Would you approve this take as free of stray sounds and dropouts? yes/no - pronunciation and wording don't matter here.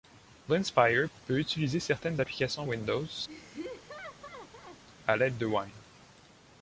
no